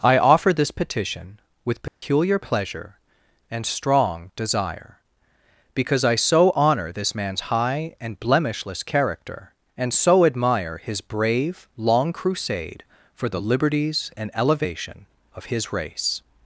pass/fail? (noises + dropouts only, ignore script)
fail